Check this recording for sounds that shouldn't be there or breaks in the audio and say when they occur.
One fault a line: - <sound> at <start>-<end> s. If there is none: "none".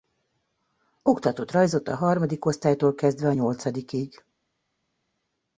none